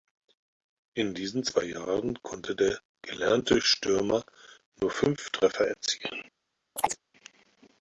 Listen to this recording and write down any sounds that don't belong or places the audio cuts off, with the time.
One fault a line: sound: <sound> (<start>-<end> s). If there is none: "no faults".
sound: chirp (6.8-7.0 s)